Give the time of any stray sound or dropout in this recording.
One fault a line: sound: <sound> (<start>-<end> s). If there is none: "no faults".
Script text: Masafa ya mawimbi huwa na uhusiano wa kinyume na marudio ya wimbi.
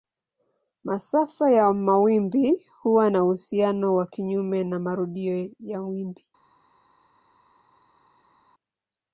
no faults